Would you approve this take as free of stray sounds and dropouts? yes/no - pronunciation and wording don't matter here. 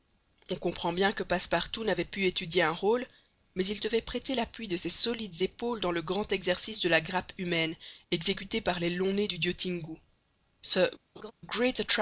no